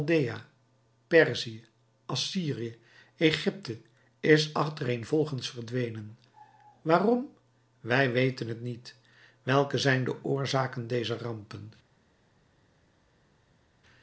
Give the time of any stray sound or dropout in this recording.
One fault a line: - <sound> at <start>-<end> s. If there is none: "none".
none